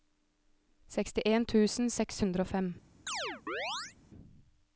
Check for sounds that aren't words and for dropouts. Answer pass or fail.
fail